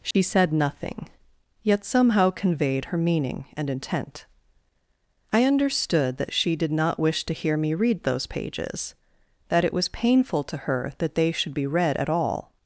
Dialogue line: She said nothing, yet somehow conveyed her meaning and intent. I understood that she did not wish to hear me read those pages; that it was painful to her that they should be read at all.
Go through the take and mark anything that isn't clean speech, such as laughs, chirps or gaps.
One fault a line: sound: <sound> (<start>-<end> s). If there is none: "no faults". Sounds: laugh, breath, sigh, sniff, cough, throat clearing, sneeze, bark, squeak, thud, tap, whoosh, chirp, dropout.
sound: dropout (0.1-0.1 s)